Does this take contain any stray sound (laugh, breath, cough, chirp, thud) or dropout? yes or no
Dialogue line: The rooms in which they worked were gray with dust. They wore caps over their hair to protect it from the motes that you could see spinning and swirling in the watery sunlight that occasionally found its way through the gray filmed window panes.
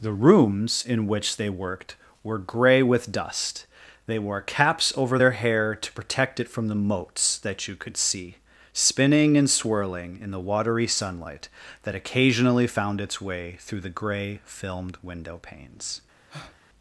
yes